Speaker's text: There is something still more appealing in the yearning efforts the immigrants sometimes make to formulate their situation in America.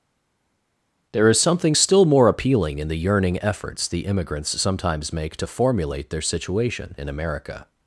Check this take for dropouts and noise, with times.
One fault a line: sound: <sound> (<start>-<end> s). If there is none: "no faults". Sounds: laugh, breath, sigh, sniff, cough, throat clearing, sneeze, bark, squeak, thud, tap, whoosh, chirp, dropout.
no faults